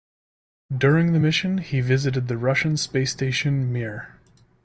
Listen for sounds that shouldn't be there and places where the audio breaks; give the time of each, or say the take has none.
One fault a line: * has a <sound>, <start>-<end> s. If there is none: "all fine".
all fine